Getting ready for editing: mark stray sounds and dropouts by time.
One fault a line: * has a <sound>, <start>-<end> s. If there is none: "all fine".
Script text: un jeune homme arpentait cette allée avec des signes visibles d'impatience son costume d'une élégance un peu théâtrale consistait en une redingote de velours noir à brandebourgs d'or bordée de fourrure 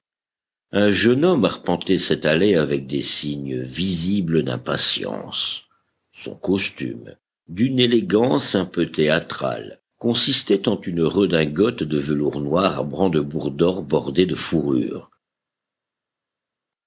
all fine